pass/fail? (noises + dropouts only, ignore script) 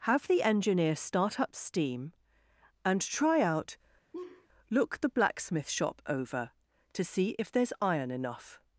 fail